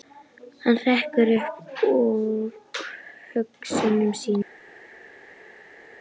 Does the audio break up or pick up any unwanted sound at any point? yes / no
no